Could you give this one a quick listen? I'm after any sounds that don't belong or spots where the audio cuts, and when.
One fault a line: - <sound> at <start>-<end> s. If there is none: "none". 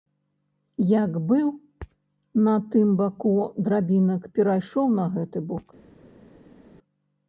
none